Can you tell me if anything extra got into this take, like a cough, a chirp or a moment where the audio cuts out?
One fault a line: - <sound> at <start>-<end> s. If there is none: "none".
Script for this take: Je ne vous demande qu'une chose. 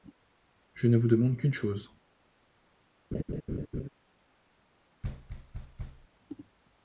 - laugh at 3.1-3.9 s
- thud at 5.0-6.1 s